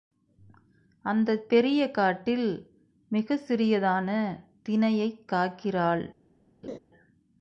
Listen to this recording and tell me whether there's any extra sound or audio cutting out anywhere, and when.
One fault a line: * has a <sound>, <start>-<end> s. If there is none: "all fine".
* has a laugh, 6.6-6.8 s